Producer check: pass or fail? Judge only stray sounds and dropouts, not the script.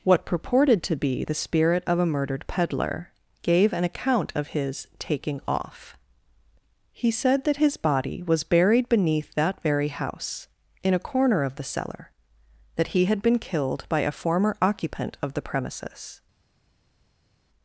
pass